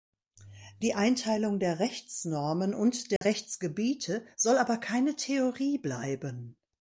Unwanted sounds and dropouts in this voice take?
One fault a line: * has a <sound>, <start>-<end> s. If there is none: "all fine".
* has a dropout, 3.2-3.2 s